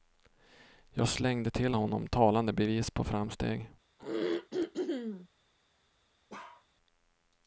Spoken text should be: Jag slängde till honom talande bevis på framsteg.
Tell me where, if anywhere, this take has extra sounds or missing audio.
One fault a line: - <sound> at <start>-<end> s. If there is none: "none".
- throat clearing at 4.0-5.3 s
- bark at 6.3-6.7 s